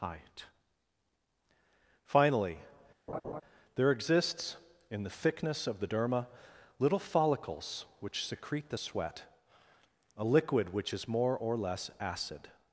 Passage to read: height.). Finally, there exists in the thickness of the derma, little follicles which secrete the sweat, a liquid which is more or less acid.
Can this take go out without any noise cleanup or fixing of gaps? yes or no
no